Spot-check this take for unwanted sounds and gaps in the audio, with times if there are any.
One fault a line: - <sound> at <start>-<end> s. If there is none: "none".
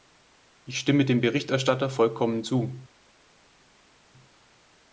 none